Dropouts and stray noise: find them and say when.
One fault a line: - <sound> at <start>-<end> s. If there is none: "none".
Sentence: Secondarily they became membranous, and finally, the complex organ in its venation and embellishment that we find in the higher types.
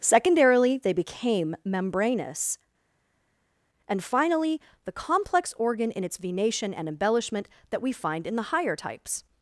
none